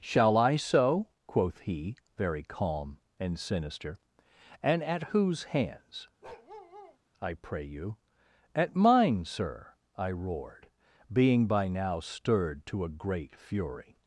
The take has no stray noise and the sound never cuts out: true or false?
false